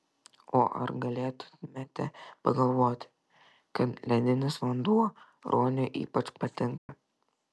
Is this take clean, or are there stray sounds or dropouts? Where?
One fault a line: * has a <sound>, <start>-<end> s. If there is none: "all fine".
* has a dropout, 6.8-6.9 s